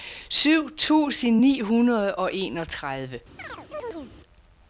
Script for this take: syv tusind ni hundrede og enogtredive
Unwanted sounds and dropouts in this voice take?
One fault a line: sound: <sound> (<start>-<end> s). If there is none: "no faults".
sound: chirp (3.4-4.1 s)